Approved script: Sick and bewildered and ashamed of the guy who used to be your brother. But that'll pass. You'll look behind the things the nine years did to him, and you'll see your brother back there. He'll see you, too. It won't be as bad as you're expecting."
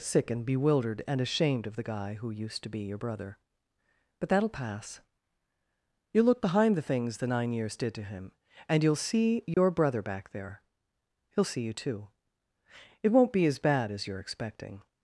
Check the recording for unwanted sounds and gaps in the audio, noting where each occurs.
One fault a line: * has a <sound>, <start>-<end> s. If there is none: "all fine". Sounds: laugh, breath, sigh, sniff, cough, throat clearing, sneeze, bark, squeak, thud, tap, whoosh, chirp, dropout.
* has a dropout, 9.5-9.6 s